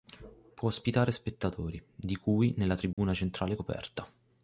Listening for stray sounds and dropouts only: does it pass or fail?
fail